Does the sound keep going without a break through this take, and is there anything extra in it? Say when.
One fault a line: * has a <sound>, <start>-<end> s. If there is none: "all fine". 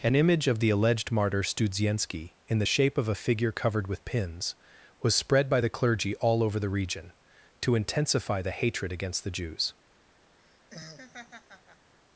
* has a laugh, 10.4-11.9 s